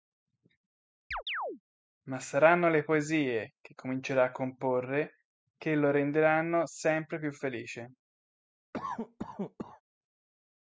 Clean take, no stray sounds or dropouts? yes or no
no